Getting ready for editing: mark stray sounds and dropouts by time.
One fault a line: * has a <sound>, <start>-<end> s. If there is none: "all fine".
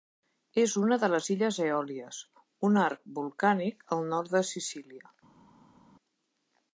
all fine